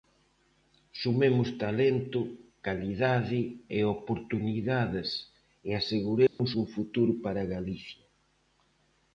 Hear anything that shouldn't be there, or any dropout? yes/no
yes